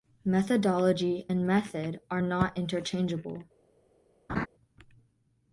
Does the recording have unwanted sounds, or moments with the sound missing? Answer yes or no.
yes